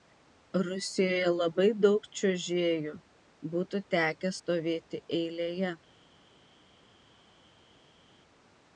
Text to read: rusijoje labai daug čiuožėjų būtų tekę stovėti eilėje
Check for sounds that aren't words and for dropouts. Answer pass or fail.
pass